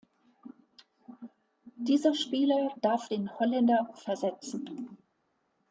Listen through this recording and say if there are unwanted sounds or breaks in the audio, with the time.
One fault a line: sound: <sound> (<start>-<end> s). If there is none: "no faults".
no faults